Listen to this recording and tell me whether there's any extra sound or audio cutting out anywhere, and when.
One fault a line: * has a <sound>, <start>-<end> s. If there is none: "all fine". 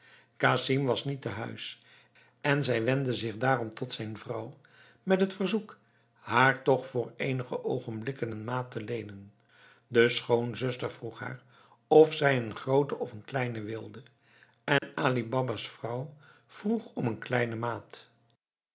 * has a dropout, 14.8-14.8 s